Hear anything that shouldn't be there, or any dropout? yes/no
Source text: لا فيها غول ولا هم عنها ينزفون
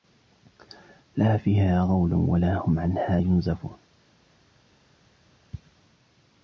no